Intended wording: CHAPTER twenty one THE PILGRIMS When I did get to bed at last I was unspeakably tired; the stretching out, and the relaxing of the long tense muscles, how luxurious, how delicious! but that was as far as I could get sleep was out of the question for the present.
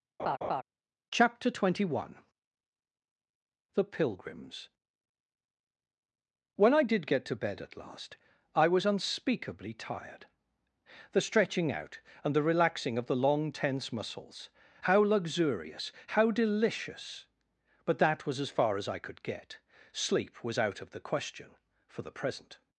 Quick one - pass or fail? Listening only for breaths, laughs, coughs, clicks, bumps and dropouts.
fail